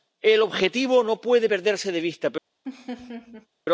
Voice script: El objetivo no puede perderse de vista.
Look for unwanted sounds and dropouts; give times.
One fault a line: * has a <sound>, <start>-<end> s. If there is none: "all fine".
* has a laugh, 2.7-3.5 s